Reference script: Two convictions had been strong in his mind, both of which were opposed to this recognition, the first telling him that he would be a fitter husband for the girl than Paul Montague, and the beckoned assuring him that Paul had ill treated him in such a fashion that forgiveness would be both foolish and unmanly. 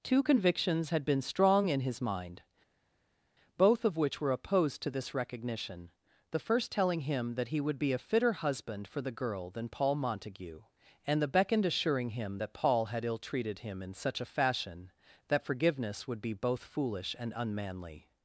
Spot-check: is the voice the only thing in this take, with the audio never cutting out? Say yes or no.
yes